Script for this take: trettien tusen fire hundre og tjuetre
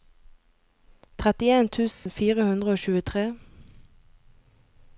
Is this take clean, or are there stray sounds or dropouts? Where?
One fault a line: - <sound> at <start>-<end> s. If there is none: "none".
- dropout at 1.9-2.1 s